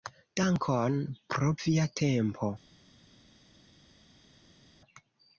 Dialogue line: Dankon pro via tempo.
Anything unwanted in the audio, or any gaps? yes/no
no